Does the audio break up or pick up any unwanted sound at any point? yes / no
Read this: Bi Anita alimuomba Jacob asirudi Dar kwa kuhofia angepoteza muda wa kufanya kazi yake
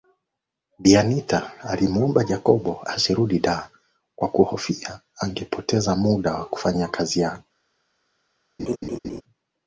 yes